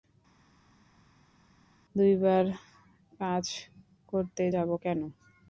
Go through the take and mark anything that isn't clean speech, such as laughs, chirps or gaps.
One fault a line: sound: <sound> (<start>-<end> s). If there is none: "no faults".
no faults